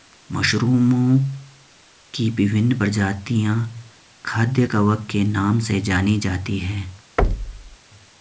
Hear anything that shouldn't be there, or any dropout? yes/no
yes